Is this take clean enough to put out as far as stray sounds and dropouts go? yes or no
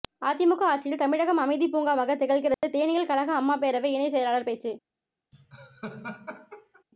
no